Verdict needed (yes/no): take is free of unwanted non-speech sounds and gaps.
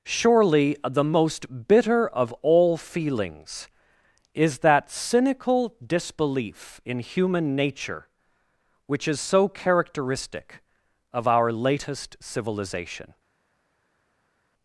yes